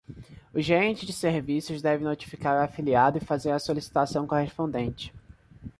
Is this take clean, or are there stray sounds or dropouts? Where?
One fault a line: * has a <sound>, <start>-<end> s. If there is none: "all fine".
all fine